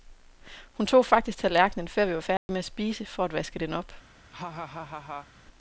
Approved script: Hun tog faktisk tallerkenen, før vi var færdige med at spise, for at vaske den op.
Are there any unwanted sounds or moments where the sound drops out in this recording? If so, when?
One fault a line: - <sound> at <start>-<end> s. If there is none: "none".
- dropout at 2.4-2.5 s
- laugh at 4.3-5.3 s